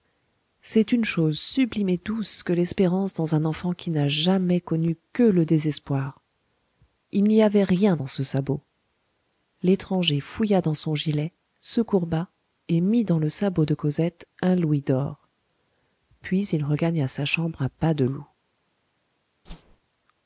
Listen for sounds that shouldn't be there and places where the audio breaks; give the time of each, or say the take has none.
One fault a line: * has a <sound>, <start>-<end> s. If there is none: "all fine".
* has a whoosh, 19.5-19.8 s